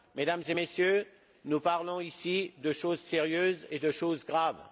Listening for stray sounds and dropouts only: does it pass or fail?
pass